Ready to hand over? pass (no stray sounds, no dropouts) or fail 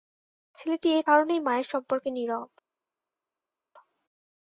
pass